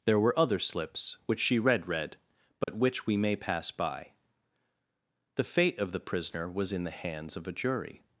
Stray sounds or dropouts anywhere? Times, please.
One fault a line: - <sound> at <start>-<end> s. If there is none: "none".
- dropout at 2.6-2.7 s